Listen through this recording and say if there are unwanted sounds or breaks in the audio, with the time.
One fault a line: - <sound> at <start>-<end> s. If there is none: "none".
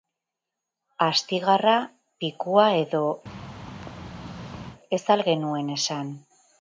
- thud at 3.3-4.8 s